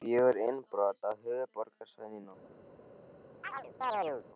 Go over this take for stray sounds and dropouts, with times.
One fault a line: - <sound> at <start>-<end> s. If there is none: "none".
- chirp at 3.4-4.3 s